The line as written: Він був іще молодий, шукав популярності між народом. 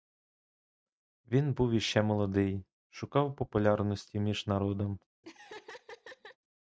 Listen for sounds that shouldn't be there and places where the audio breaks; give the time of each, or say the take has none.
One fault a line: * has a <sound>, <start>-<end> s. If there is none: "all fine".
* has a laugh, 5.2-6.4 s